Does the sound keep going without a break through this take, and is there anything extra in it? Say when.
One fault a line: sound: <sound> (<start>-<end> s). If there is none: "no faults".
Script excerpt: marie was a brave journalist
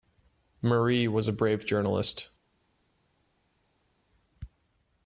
no faults